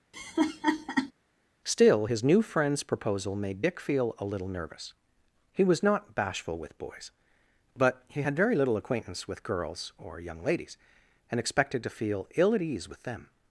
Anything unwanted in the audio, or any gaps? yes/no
yes